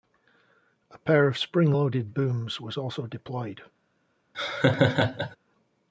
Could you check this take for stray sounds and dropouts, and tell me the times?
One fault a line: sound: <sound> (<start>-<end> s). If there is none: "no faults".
sound: laugh (4.3-5.4 s)